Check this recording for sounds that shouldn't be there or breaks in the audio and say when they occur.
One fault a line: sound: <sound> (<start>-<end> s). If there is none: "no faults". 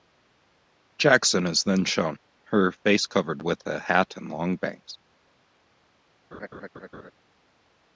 sound: laugh (6.3-7.1 s)